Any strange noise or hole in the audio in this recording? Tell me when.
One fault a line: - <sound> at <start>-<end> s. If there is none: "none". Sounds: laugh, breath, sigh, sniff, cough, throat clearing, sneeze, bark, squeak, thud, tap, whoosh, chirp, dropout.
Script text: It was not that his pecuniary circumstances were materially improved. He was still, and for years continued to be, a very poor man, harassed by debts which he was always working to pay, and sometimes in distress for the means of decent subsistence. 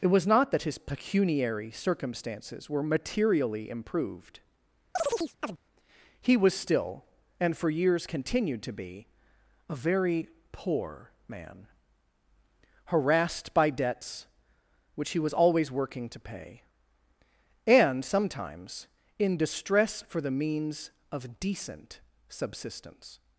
- chirp at 5.0-5.6 s